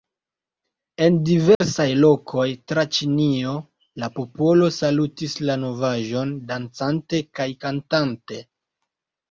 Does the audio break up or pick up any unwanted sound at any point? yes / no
yes